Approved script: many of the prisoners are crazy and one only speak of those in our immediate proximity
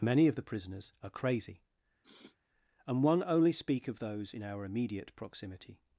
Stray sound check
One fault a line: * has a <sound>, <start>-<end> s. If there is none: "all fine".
* has a sniff, 2.0-2.4 s